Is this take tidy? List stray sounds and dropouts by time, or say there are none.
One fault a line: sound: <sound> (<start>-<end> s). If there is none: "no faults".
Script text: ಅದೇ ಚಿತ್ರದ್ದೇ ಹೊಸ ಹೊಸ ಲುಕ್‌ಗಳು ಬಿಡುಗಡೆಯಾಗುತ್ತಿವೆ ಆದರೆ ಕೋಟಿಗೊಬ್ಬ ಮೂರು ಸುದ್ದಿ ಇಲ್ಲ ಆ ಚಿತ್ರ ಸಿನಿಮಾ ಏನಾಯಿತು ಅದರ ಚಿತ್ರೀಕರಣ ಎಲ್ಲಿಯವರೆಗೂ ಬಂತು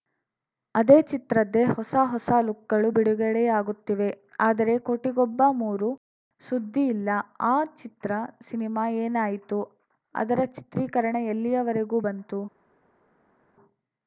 no faults